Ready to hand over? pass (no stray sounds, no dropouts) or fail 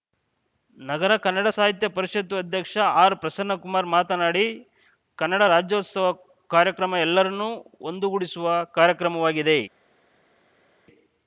pass